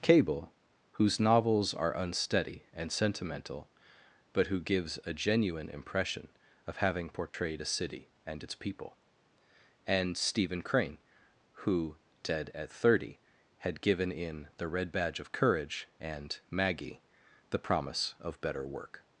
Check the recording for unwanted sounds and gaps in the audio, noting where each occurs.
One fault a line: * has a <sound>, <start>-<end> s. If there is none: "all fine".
* has a dropout, 7.3-7.3 s